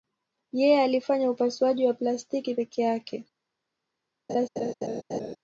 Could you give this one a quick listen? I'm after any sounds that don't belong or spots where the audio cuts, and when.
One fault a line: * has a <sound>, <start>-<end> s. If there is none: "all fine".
* has a laugh, 4.3-5.4 s